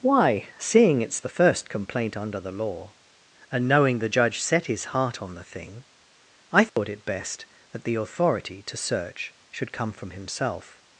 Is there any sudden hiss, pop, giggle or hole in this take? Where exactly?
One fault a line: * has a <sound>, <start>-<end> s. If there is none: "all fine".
* has a dropout, 6.7-6.8 s